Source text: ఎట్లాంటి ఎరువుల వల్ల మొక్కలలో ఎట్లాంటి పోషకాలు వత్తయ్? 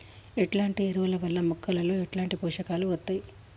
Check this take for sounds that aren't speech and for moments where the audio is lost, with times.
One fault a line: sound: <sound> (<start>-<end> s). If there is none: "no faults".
no faults